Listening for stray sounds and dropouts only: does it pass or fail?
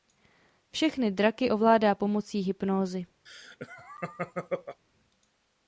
fail